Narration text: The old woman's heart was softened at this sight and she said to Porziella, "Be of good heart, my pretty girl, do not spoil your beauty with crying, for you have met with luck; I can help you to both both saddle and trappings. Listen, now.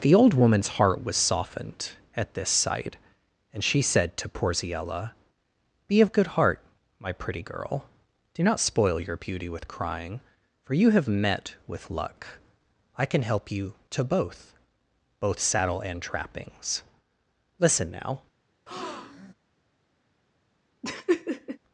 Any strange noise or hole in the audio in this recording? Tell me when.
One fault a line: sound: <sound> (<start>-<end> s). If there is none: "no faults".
sound: breath (18.7-19.3 s)
sound: laugh (20.8-21.6 s)